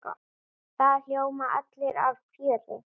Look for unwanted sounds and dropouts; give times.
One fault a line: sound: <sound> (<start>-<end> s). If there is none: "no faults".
no faults